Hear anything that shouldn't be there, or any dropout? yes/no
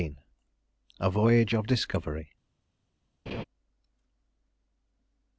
yes